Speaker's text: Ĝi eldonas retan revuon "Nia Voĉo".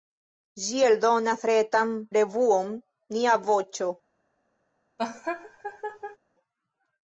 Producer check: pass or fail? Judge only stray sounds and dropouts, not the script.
fail